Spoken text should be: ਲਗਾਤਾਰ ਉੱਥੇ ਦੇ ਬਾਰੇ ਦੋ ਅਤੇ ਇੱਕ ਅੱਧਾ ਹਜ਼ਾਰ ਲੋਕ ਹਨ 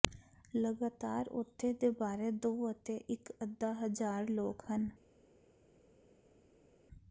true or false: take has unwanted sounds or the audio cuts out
false